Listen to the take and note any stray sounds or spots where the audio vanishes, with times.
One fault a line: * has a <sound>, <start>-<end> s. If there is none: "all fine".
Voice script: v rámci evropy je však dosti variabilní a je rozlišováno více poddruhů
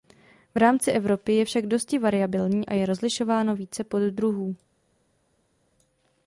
all fine